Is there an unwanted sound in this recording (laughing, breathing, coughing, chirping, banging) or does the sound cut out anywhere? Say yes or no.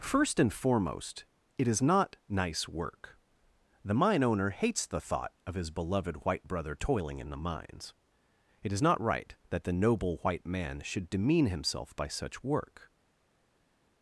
no